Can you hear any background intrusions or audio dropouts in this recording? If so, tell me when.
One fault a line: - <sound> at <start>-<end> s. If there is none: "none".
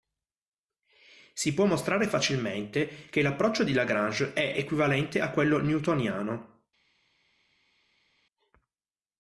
none